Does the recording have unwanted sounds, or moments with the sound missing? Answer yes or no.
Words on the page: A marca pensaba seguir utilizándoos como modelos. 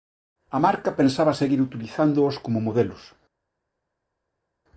no